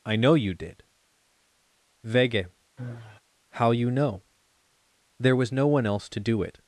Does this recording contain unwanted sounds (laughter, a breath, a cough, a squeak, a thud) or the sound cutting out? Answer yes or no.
yes